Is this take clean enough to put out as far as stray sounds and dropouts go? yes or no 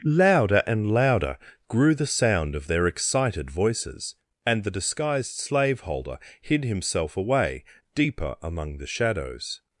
yes